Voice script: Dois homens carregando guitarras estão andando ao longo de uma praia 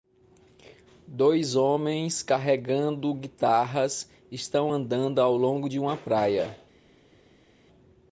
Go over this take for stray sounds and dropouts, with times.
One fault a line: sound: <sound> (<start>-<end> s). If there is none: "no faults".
no faults